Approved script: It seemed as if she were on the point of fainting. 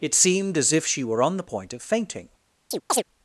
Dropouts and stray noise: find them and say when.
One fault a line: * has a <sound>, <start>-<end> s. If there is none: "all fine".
* has a chirp, 2.7-3.0 s